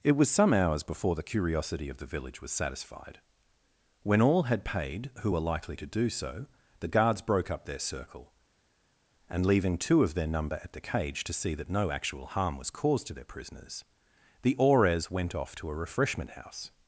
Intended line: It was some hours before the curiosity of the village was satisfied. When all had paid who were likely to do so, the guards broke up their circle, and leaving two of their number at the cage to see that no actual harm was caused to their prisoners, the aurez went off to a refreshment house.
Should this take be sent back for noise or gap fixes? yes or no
no